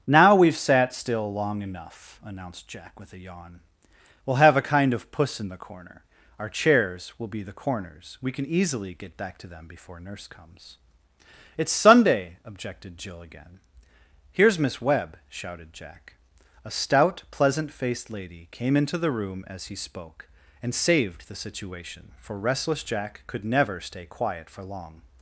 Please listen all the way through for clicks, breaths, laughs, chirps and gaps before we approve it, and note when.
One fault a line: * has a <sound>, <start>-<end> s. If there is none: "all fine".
all fine